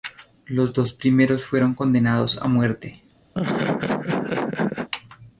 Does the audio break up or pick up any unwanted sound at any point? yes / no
yes